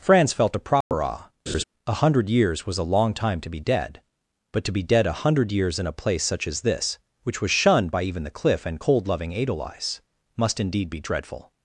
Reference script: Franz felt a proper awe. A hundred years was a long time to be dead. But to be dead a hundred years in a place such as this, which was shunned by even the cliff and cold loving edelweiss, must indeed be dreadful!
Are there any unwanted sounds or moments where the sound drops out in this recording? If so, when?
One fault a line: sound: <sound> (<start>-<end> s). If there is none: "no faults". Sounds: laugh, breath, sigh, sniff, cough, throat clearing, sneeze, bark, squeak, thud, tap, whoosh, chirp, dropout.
sound: dropout (0.8-0.9 s)
sound: laugh (1.5-1.6 s)